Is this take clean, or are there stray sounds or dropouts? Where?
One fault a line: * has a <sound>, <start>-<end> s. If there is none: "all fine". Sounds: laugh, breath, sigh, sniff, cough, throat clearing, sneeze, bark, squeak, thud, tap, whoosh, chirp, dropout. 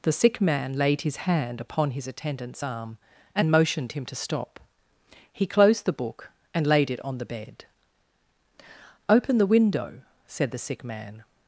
all fine